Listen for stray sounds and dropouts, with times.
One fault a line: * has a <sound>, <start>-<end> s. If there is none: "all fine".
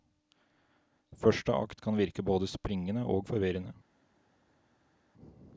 all fine